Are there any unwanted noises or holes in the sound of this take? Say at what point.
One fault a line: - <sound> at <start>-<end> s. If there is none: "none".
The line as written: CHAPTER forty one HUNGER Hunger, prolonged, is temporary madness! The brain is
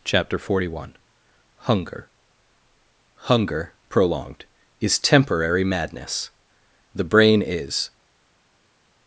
none